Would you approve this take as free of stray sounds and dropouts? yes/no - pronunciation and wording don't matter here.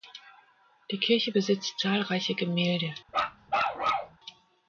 no